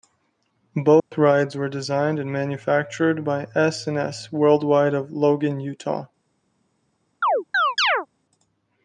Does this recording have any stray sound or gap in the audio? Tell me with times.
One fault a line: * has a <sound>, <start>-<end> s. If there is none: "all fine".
* has a dropout, 1.0-1.1 s
* has a chirp, 7.2-8.1 s